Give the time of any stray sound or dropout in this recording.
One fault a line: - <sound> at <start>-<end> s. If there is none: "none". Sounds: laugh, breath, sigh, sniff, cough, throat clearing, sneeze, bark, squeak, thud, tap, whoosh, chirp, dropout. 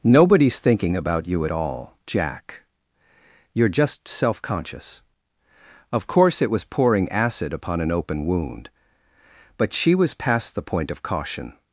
none